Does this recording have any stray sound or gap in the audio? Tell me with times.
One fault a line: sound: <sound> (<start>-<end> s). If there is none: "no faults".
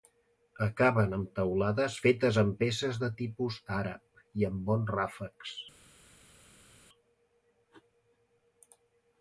no faults